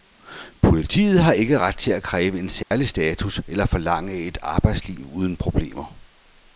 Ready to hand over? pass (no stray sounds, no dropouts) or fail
fail